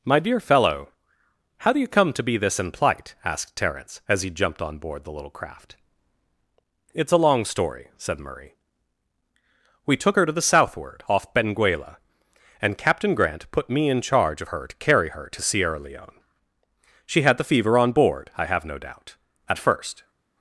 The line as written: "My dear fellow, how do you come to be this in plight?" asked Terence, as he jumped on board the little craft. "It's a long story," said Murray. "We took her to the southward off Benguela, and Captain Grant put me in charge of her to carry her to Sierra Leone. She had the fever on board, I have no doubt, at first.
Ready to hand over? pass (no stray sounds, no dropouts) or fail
pass